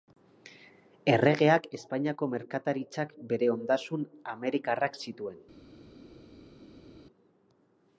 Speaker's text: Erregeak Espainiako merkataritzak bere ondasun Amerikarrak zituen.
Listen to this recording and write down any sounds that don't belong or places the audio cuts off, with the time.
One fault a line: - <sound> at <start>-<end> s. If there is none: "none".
none